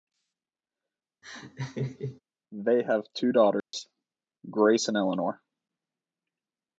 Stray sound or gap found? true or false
true